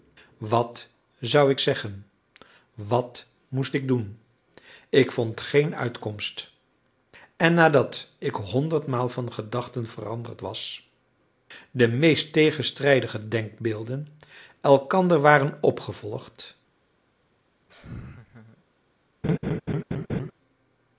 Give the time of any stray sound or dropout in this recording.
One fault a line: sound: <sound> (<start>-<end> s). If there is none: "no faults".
sound: laugh (17.7-18.6 s)
sound: laugh (19.2-20.3 s)